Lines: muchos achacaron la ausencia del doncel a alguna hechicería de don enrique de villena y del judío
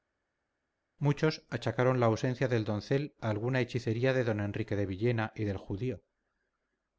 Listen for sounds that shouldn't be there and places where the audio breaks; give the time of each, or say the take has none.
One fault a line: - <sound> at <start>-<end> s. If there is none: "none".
none